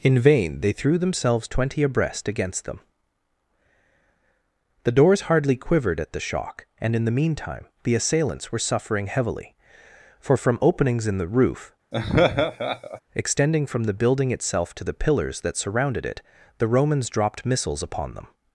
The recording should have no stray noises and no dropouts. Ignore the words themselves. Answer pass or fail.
fail